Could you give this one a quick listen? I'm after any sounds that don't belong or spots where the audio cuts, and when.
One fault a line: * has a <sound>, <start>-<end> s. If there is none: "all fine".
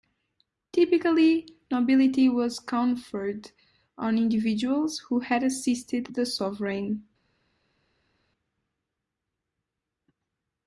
all fine